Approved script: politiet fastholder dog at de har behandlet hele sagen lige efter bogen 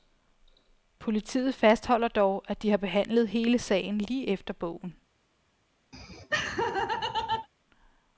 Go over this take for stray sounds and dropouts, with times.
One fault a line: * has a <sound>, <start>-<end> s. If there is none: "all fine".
* has a laugh, 5.9-7.5 s